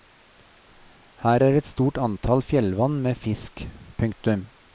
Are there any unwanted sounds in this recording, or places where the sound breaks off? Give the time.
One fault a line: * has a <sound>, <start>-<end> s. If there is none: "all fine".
all fine